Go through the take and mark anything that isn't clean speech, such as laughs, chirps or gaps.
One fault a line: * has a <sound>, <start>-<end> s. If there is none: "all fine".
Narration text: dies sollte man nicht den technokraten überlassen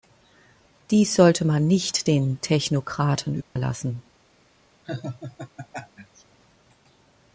* has a dropout, 3.4-3.6 s
* has a laugh, 4.8-6.2 s